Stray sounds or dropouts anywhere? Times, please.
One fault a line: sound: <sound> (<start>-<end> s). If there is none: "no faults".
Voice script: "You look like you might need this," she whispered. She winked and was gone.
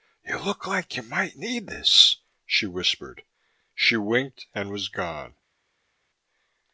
no faults